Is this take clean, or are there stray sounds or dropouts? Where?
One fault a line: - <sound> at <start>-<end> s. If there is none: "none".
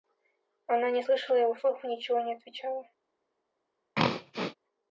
- throat clearing at 3.9-4.5 s